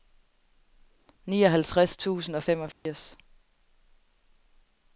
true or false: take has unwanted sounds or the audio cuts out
true